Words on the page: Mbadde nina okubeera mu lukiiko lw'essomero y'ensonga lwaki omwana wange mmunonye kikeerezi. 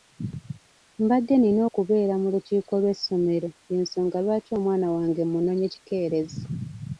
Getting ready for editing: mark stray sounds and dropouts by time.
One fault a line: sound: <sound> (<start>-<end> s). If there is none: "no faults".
no faults